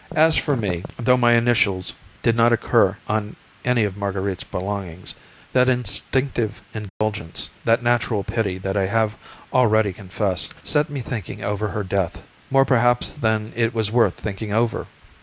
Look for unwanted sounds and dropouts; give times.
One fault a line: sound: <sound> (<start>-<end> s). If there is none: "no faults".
sound: dropout (6.9-7.0 s)